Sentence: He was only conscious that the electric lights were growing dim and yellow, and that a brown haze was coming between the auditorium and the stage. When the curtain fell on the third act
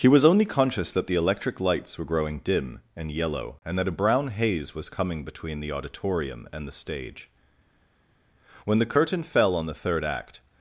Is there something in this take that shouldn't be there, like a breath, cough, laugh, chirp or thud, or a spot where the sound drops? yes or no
no